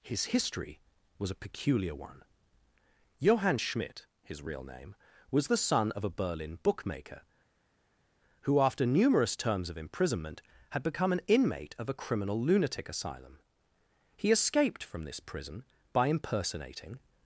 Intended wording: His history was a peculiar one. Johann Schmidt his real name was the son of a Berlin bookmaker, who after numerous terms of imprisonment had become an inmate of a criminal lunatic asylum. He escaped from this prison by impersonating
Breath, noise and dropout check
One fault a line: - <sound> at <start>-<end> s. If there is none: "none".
none